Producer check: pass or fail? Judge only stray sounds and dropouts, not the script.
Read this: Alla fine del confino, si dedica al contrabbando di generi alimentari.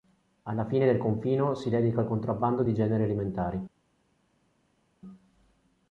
pass